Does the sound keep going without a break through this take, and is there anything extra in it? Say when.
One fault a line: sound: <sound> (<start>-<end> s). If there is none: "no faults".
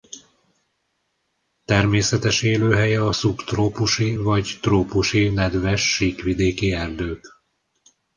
no faults